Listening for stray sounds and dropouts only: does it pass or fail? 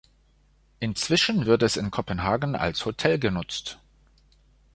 pass